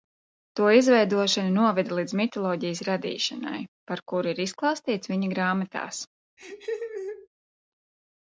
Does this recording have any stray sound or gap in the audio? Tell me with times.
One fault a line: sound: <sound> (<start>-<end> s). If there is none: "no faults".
sound: laugh (6.4-7.3 s)